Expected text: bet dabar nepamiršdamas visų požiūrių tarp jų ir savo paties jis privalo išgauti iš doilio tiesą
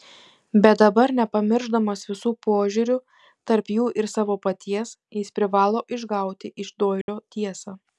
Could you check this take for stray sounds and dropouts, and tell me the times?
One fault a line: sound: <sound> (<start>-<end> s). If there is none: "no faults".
sound: dropout (7.0-7.1 s)